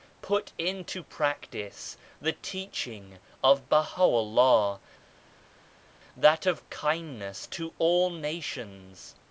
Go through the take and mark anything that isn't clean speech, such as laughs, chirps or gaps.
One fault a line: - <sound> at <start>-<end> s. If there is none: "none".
none